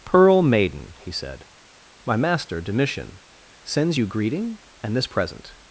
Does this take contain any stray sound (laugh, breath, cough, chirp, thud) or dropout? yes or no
no